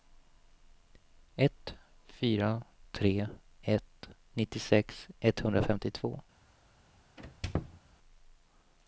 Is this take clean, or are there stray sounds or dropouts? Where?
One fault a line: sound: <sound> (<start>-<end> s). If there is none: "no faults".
sound: squeak (7.2-7.8 s)